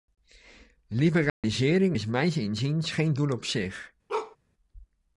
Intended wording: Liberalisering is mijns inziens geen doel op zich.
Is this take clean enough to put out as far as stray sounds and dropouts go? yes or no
no